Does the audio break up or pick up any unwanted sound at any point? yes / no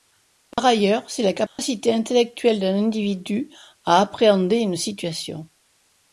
yes